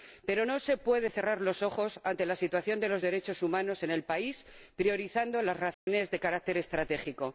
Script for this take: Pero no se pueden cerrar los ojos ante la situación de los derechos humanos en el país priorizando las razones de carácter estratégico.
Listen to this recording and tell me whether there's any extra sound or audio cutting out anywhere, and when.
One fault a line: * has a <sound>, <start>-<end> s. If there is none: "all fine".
* has a dropout, 5.7-5.9 s